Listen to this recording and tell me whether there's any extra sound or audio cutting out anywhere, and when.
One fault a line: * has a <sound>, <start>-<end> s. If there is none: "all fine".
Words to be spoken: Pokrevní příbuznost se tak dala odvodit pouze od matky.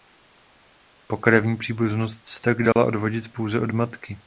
* has a dropout, 2.7-2.8 s